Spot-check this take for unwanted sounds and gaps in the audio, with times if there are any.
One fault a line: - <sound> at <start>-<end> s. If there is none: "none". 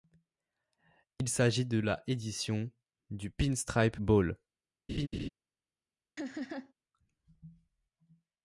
- laugh at 4.9-5.3 s
- laugh at 6.2-6.7 s